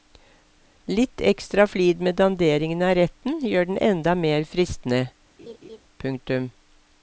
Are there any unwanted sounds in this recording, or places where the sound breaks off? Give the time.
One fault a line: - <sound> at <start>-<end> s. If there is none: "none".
- laugh at 5.4-5.8 s